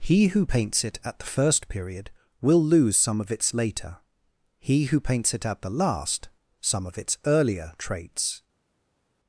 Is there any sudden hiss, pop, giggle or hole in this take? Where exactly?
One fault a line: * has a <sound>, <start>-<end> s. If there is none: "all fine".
all fine